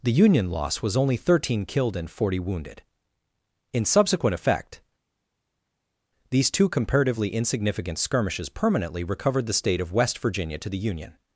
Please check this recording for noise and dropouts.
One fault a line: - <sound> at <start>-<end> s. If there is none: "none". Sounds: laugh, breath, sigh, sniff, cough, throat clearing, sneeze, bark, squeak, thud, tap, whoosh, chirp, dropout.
none